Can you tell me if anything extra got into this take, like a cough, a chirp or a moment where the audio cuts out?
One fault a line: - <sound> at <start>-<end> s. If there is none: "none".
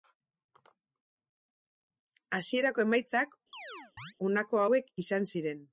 - chirp at 3.5-4.1 s